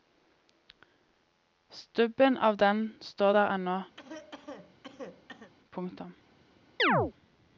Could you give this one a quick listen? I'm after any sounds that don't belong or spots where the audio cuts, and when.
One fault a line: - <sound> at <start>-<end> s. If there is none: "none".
- cough at 4.0-5.5 s
- chirp at 6.8-7.1 s